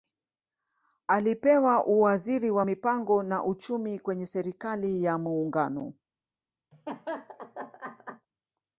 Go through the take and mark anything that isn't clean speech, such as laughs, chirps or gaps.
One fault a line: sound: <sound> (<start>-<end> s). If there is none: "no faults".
sound: laugh (6.7-8.3 s)